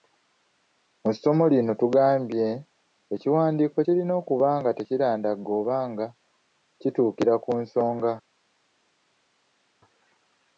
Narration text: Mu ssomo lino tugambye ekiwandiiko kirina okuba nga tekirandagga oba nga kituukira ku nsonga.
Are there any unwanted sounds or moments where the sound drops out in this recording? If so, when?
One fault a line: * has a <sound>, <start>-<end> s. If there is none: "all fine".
all fine